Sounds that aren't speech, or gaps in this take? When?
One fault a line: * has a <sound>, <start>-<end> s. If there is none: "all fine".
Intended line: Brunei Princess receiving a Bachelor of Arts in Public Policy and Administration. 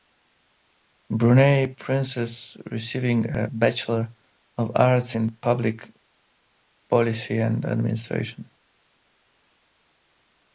all fine